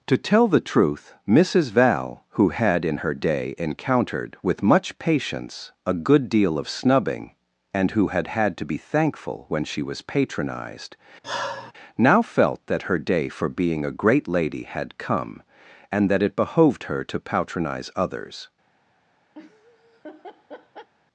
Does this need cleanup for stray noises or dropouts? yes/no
yes